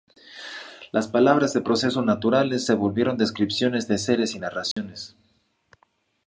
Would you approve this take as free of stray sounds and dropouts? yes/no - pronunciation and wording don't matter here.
no